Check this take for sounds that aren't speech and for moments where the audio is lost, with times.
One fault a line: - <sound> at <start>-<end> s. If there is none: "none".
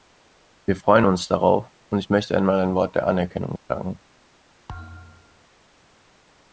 - thud at 4.7-5.5 s